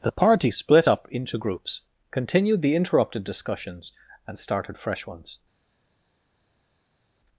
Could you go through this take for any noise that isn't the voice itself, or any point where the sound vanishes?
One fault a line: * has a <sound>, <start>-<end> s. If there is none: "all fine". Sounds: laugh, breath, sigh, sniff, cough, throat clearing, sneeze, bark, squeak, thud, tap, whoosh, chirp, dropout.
all fine